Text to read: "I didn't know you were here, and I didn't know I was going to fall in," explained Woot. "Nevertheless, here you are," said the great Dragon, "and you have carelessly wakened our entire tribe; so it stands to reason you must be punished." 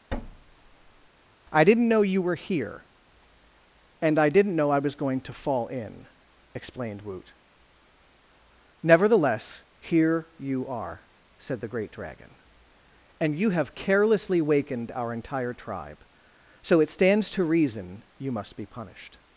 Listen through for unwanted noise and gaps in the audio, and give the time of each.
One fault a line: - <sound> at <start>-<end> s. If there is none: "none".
- thud at 0.1-1.1 s